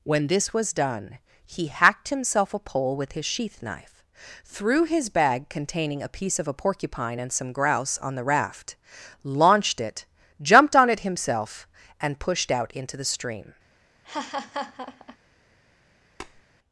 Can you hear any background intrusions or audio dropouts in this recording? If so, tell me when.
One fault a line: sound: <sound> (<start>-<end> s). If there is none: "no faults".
sound: laugh (14.0-15.2 s)
sound: tap (16.2-16.4 s)